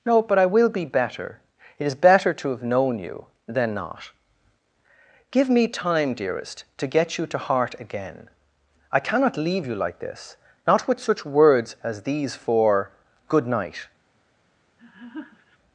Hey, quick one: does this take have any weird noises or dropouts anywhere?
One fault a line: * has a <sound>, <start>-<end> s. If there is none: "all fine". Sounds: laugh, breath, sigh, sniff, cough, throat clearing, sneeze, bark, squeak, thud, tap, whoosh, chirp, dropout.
* has a laugh, 14.8-15.6 s